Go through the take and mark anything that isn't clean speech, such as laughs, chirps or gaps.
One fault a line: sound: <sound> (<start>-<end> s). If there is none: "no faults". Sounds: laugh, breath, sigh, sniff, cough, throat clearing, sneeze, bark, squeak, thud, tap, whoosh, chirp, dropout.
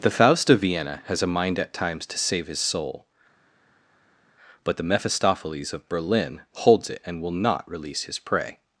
no faults